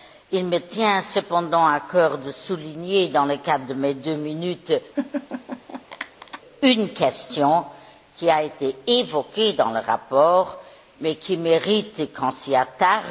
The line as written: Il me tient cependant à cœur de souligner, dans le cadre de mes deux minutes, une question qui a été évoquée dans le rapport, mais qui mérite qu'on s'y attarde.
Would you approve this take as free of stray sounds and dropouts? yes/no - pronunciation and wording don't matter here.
no